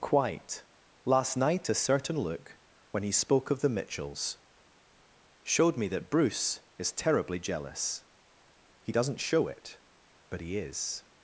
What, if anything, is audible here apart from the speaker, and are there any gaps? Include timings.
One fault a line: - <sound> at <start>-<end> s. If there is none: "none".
none